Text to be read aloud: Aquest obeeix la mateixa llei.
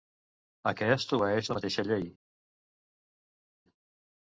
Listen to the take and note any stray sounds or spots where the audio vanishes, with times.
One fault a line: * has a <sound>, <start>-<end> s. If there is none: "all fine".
all fine